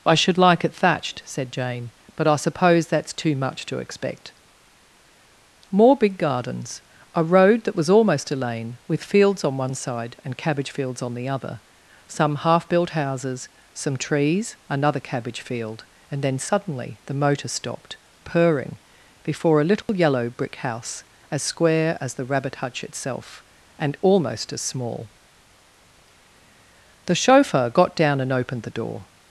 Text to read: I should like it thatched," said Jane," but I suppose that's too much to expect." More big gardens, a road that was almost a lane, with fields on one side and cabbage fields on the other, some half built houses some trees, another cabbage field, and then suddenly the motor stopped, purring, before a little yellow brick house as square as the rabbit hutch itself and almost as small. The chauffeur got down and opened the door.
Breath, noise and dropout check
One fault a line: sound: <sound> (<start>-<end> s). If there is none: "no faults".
sound: dropout (19.8-19.9 s)